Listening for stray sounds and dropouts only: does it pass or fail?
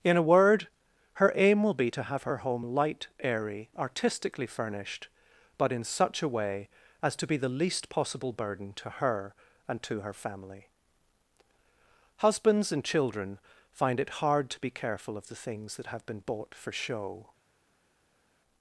pass